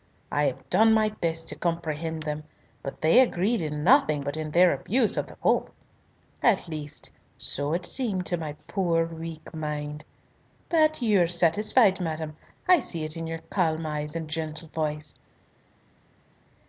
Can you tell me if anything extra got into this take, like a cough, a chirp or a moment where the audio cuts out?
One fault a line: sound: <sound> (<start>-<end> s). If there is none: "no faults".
no faults